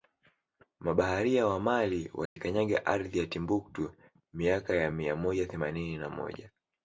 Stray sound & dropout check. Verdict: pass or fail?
fail